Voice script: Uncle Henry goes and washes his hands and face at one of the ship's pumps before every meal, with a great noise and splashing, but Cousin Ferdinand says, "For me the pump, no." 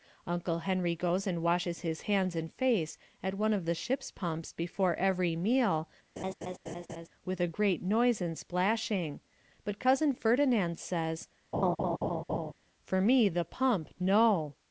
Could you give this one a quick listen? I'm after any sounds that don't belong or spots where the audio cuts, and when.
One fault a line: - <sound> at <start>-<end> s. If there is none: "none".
- laugh at 6.2-7.1 s
- laugh at 11.5-12.5 s